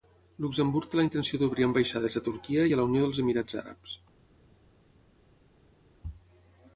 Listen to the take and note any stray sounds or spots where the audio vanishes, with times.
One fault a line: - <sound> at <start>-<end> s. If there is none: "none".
none